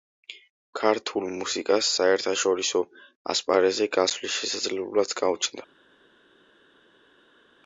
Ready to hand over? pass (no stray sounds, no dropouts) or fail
pass